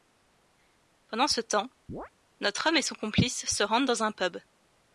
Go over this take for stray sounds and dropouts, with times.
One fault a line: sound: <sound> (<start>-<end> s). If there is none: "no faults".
sound: chirp (1.9-2.1 s)